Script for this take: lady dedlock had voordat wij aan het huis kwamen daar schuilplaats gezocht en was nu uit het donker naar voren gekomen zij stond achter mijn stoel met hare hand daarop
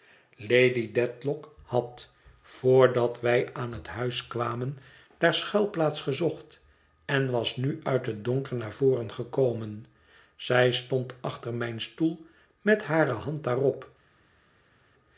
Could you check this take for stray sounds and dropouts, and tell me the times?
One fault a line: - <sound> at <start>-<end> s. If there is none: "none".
none